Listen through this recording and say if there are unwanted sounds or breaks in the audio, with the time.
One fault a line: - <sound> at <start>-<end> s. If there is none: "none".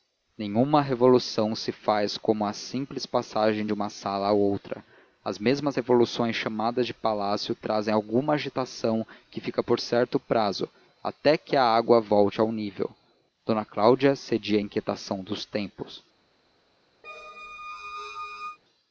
- squeak at 17.0-18.6 s